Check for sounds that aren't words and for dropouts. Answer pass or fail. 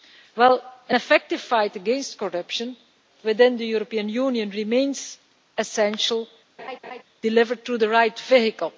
fail